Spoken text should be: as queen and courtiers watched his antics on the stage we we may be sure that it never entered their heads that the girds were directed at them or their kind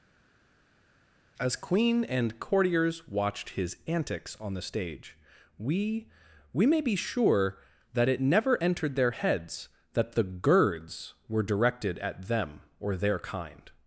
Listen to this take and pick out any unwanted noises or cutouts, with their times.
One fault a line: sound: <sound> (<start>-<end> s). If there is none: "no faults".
no faults